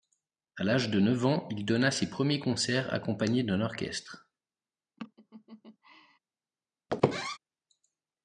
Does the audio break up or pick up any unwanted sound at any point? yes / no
yes